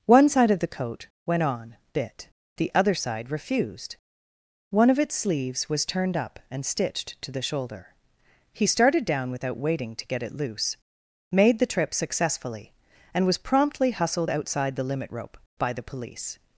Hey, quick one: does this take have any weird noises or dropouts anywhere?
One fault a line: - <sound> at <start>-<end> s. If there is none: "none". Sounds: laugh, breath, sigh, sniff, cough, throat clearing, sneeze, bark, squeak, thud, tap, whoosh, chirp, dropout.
none